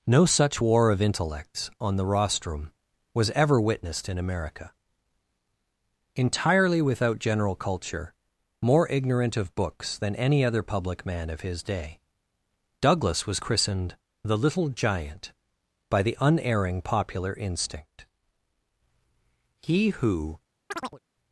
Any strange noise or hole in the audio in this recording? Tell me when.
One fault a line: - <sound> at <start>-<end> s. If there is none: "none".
- chirp at 20.7-21.0 s